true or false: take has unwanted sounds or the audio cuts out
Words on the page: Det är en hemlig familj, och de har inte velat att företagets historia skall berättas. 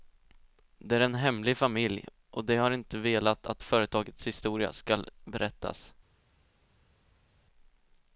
false